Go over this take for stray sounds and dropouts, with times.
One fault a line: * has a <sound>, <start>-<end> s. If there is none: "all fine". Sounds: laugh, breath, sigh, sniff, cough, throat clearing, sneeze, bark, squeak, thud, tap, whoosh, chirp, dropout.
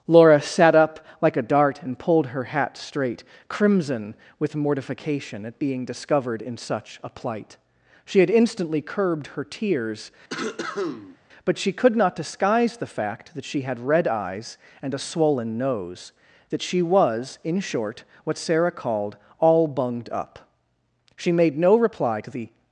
* has a cough, 10.3-11.2 s